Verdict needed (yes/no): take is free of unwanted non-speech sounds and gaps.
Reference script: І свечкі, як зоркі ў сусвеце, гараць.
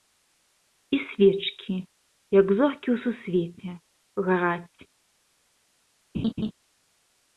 no